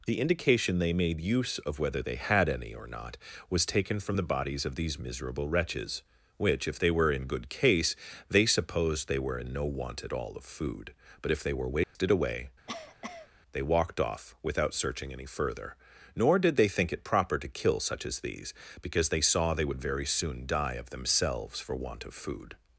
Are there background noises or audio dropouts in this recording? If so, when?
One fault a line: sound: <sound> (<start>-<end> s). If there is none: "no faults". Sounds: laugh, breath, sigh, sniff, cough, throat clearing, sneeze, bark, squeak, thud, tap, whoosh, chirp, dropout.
sound: dropout (11.8-12.0 s)
sound: cough (12.7-13.3 s)